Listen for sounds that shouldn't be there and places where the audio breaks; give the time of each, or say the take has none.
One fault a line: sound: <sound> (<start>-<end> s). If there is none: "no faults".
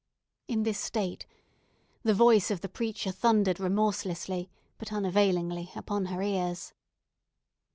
no faults